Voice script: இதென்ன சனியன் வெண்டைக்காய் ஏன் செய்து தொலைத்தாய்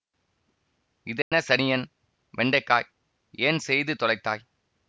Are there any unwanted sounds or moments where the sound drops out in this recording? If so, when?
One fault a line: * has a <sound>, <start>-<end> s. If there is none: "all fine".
* has a dropout, 1.2-1.3 s